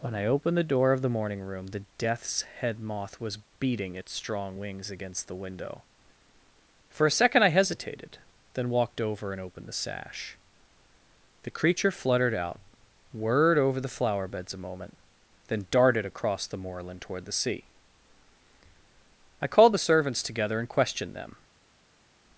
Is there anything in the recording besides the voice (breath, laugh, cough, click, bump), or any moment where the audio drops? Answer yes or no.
no